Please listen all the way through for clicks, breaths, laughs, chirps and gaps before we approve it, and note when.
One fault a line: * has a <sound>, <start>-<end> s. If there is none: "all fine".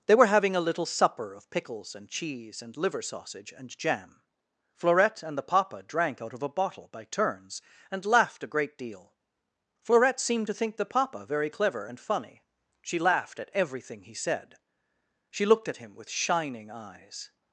all fine